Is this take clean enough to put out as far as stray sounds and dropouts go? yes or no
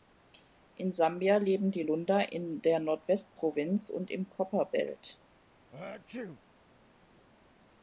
no